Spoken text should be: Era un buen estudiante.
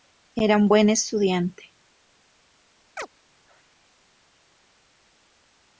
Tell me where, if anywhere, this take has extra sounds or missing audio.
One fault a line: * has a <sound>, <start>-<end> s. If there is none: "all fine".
* has a chirp, 3.0-3.1 s